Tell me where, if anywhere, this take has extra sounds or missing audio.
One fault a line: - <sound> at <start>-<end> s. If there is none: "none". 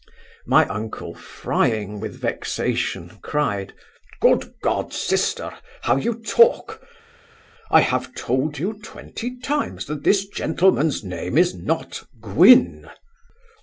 none